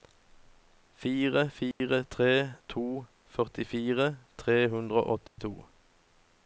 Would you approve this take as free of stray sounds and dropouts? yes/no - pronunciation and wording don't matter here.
no